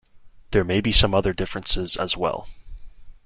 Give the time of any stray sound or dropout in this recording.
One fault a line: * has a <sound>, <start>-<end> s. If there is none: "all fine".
all fine